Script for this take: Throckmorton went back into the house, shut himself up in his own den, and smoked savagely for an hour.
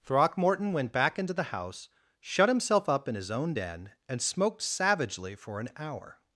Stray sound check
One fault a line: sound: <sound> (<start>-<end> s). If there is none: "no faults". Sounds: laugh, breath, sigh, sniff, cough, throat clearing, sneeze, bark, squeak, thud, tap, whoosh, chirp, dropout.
no faults